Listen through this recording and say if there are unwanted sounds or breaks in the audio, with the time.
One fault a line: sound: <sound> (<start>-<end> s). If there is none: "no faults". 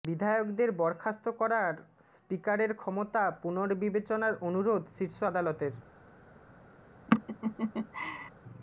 sound: laugh (7.1-8.3 s)